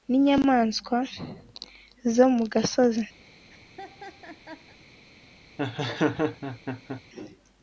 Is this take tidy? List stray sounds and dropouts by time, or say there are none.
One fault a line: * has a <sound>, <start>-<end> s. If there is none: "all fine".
* has a laugh, 3.2-4.8 s
* has a laugh, 5.6-7.0 s